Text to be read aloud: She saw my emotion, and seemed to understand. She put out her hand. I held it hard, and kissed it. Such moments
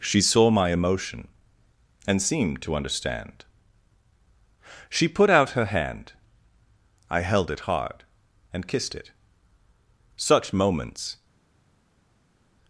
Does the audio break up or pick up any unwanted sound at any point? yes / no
no